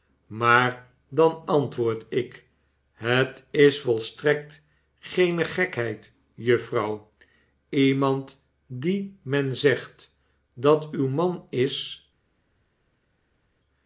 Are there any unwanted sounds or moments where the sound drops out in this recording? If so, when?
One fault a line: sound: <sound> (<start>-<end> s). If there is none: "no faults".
no faults